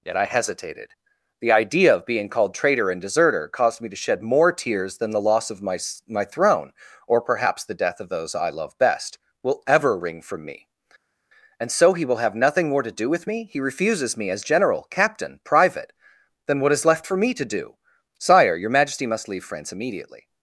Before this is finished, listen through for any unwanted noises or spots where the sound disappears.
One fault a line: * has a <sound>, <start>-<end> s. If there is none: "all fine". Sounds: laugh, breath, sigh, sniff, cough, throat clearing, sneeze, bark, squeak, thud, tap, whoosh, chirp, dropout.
all fine